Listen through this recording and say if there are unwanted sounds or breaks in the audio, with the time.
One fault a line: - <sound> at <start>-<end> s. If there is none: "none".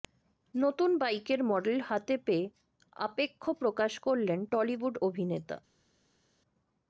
none